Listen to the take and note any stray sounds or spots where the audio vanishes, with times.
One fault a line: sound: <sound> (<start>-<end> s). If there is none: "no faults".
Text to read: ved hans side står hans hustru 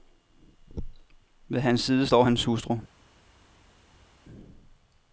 no faults